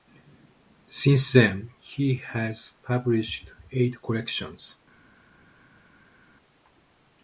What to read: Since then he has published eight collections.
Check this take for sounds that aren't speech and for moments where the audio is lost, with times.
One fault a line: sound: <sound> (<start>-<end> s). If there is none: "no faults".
no faults